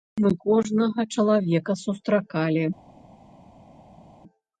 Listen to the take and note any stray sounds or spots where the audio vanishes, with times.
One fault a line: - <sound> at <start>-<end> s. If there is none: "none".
none